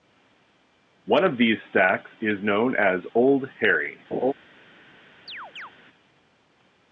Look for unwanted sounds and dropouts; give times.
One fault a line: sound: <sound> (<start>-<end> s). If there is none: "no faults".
sound: laugh (4.1-4.3 s)
sound: chirp (5.3-5.7 s)